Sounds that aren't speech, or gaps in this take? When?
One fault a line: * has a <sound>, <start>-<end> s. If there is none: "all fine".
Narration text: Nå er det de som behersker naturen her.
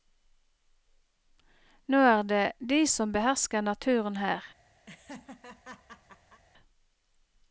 * has a laugh, 4.9-6.4 s